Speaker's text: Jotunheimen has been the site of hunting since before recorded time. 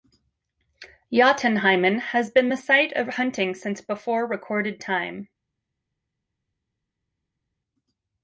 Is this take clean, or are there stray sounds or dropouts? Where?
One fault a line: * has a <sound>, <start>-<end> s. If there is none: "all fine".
all fine